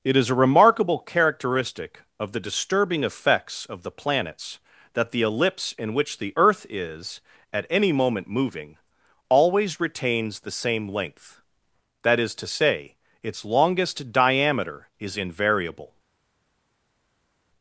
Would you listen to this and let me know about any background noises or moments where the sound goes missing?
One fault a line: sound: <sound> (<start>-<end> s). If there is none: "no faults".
no faults